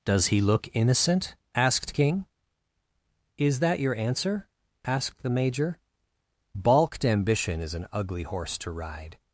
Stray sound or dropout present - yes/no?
no